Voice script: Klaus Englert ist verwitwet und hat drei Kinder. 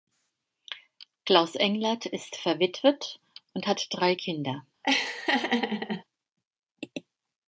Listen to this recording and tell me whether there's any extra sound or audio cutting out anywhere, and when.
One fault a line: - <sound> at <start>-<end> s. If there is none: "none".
- laugh at 4.8-6.0 s